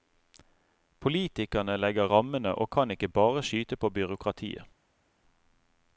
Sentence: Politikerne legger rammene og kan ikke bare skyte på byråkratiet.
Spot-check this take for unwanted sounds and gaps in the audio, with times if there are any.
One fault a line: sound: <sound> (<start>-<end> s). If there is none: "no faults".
no faults